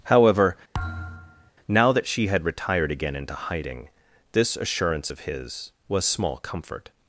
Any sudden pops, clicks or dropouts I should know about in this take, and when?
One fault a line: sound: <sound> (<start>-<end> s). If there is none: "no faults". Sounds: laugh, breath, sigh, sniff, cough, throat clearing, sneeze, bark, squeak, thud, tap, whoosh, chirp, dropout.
sound: thud (0.7-1.5 s)